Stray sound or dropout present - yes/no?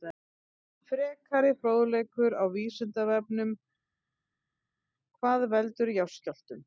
no